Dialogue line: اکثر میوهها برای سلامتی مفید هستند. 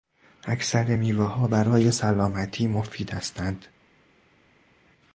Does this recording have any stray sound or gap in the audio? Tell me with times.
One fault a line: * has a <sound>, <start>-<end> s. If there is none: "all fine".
all fine